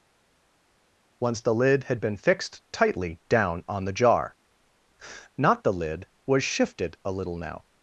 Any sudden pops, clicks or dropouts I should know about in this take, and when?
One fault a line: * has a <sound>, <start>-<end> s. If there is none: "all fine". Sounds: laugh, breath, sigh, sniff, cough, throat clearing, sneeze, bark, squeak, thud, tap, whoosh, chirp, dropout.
all fine